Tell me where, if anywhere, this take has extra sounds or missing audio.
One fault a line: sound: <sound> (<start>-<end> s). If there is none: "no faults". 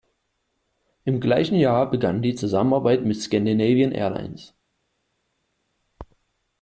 no faults